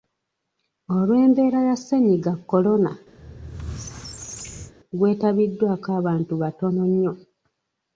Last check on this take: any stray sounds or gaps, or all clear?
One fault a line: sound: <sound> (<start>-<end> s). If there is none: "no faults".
sound: squeak (3.2-4.7 s)